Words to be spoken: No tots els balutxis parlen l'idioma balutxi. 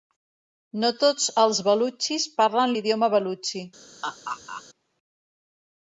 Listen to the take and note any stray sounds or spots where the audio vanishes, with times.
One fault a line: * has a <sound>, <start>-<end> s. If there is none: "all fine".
* has a laugh, 4.0-4.6 s